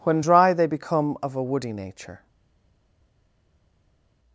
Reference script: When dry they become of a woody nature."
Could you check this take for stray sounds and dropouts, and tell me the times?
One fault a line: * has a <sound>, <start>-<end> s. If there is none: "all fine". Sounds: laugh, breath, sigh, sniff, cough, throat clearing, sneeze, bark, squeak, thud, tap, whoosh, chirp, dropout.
all fine